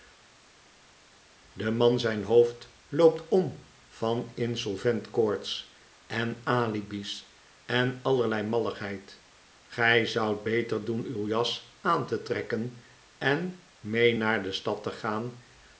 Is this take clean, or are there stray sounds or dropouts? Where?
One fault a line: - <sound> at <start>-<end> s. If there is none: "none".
none